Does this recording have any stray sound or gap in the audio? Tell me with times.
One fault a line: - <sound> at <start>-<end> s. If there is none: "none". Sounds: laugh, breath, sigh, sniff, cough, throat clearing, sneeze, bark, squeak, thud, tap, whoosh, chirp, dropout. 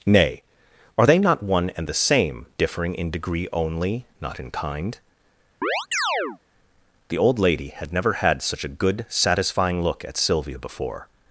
- chirp at 5.6-6.4 s